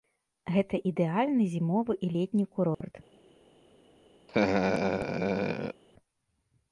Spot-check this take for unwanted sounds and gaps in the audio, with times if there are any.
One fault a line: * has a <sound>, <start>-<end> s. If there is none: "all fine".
* has a dropout, 2.7-2.8 s
* has a laugh, 4.3-5.8 s